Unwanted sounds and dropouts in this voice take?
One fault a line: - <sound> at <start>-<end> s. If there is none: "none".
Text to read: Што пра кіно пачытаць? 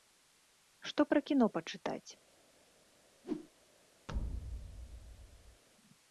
- whoosh at 3.2-3.5 s
- thud at 4.1-5.6 s